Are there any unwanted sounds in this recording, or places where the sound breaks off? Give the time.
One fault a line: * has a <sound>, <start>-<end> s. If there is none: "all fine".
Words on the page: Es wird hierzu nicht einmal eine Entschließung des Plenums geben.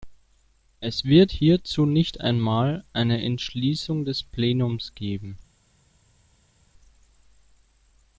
all fine